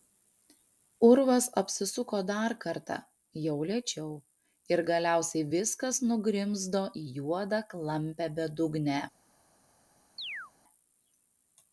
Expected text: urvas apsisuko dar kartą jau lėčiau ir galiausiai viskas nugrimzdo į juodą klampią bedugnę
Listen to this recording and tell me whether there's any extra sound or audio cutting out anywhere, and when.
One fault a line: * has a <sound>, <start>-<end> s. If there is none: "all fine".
* has a chirp, 10.2-10.5 s